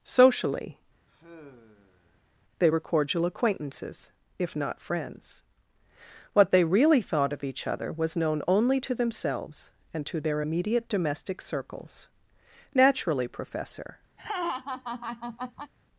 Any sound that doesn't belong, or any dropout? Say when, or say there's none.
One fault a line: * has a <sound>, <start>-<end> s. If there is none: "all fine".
* has a sigh, 1.1-2.3 s
* has a laugh, 14.2-15.7 s